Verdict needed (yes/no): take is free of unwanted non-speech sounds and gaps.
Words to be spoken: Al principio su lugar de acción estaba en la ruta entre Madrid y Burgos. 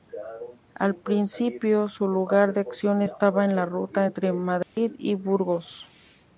no